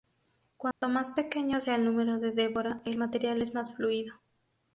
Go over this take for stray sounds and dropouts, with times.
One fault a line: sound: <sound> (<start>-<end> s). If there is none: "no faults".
sound: dropout (0.7-0.8 s)